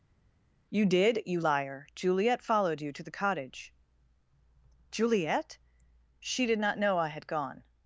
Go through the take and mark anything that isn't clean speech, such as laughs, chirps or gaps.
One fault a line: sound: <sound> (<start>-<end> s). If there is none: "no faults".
no faults